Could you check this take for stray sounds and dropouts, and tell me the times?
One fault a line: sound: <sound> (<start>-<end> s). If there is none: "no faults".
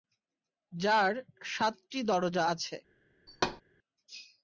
sound: thud (3.3-3.6 s)